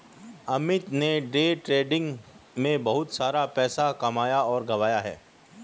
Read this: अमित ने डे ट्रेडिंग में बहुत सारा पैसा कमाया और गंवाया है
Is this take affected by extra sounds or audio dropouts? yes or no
no